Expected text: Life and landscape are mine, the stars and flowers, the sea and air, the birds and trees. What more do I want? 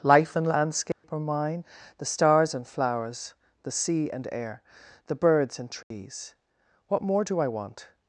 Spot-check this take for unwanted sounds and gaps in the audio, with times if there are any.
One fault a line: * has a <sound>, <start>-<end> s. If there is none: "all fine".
* has a dropout, 0.9-1.0 s
* has a dropout, 5.8-5.9 s